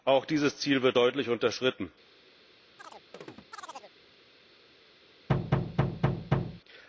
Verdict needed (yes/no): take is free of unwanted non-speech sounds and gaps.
no